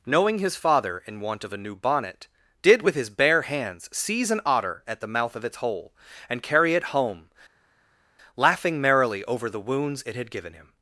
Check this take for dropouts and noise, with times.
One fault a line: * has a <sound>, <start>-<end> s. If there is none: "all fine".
all fine